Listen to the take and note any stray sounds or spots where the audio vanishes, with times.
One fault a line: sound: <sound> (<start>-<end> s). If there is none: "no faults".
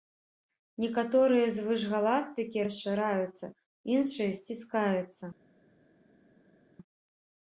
no faults